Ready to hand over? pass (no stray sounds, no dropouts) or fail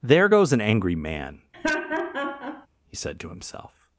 fail